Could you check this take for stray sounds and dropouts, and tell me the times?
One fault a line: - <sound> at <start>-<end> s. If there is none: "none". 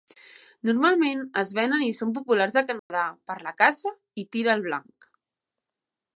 - dropout at 2.8-2.9 s